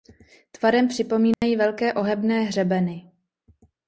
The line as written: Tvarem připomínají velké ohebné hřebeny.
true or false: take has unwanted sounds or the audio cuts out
true